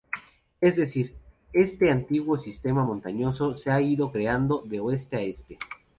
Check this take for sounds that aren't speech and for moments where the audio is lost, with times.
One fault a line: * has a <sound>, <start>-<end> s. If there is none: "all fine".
all fine